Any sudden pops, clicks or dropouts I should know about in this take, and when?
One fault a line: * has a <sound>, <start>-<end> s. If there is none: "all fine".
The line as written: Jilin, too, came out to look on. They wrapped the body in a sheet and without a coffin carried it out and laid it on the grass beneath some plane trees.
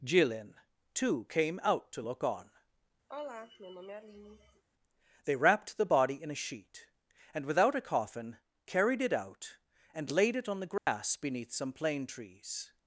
* has a sigh, 3.1-4.6 s
* has a dropout, 10.8-10.9 s